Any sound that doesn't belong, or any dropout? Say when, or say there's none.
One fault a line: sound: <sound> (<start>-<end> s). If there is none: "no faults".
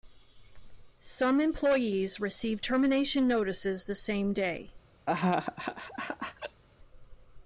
sound: laugh (5.1-6.6 s)